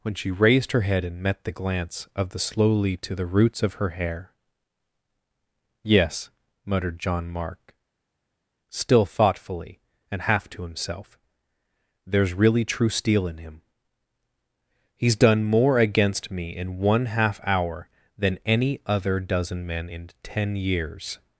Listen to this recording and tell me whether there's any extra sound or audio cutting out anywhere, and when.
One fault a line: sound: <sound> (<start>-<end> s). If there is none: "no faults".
no faults